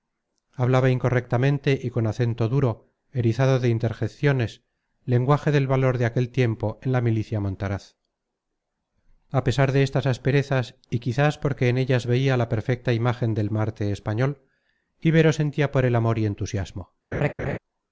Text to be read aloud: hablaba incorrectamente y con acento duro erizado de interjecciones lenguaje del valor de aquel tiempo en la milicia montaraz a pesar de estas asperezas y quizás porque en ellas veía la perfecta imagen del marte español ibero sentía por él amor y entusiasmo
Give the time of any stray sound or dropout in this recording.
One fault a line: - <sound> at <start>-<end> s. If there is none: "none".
- laugh at 17.1-17.6 s